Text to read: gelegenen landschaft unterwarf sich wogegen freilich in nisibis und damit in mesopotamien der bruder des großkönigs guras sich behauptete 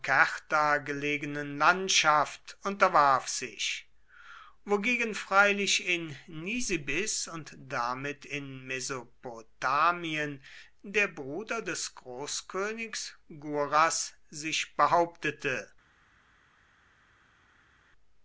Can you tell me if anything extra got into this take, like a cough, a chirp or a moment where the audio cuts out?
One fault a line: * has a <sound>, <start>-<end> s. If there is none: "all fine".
all fine